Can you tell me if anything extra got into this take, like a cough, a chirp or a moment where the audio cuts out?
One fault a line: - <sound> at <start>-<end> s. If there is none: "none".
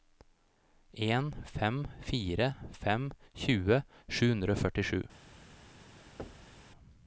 - thud at 6.2-6.6 s